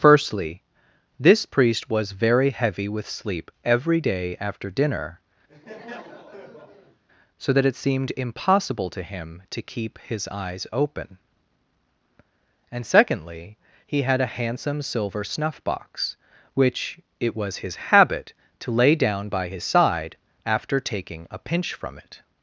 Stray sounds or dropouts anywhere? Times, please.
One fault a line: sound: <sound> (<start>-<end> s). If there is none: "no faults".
sound: laugh (5.5-7.0 s)